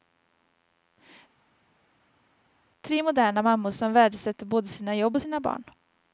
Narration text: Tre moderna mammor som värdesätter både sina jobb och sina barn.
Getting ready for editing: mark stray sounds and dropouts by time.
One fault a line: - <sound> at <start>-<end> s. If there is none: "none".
none